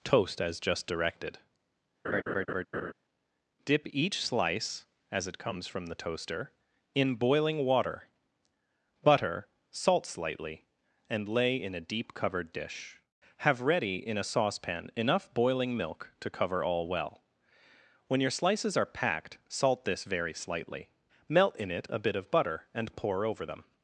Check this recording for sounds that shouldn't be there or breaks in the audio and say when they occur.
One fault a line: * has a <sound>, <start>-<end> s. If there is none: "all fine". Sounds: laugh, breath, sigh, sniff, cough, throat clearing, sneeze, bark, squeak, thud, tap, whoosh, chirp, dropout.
* has a laugh, 2.0-2.9 s